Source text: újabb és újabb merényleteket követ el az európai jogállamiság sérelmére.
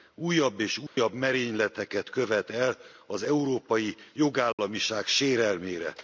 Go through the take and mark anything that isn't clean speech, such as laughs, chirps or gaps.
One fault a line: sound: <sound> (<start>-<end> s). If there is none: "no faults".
sound: dropout (0.9-1.0 s)
sound: dropout (4.5-4.6 s)